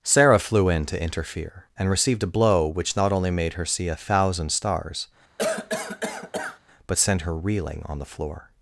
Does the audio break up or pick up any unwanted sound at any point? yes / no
yes